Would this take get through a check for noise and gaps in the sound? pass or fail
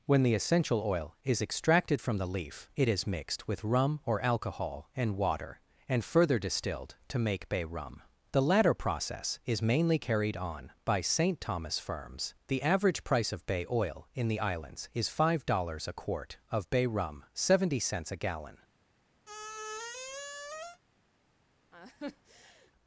fail